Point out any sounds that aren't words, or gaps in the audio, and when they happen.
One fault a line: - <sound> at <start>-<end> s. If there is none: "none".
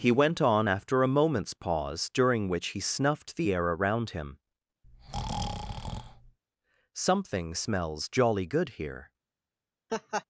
- breath at 4.8-6.4 s
- laugh at 9.9-10.2 s